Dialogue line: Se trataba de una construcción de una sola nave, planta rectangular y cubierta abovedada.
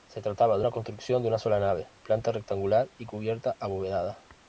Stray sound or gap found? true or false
false